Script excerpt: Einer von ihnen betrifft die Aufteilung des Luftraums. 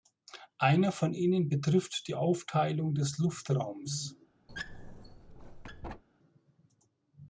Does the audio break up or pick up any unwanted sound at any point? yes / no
yes